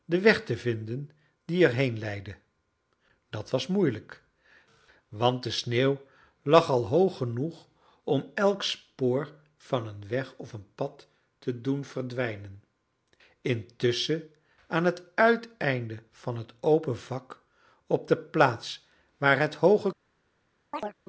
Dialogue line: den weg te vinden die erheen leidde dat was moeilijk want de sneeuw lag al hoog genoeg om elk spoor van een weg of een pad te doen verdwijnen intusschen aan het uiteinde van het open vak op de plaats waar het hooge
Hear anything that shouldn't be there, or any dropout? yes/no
yes